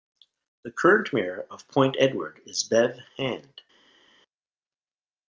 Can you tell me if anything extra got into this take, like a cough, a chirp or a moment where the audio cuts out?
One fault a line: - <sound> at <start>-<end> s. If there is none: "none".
none